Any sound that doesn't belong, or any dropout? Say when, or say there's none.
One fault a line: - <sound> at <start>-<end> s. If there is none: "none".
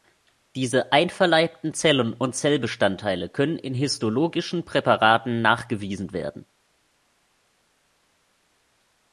none